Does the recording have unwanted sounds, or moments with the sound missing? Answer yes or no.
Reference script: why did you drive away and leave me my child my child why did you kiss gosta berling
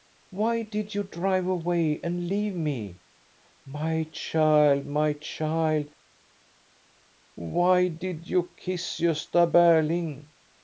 no